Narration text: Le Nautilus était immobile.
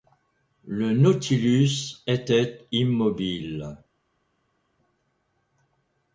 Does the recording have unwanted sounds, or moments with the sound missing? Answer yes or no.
no